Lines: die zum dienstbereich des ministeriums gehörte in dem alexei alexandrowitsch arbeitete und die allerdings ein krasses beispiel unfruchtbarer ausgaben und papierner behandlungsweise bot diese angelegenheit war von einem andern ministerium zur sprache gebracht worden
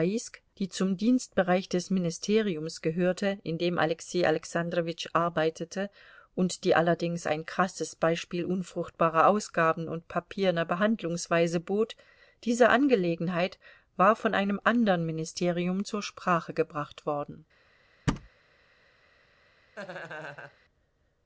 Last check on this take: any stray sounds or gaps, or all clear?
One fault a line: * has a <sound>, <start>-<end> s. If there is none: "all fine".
* has a thud, 18.1-18.3 s
* has a laugh, 19.8-20.6 s